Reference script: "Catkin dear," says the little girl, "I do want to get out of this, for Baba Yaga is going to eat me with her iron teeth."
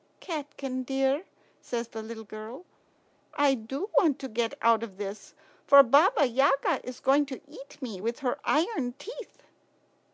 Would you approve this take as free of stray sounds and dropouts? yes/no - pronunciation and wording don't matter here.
yes